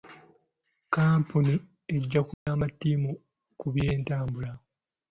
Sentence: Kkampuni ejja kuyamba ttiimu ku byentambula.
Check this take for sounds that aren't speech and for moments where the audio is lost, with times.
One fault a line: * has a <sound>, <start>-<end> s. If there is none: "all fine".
* has a dropout, 2.3-2.5 s